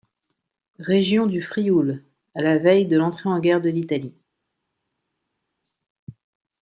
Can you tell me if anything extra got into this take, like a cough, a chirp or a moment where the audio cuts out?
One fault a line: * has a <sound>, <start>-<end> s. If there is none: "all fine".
all fine